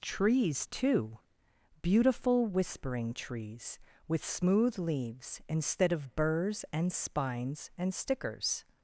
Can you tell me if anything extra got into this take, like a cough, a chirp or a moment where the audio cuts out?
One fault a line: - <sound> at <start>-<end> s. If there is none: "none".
none